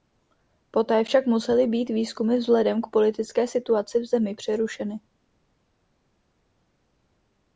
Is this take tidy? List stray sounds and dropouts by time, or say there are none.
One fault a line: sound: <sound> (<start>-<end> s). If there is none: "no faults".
no faults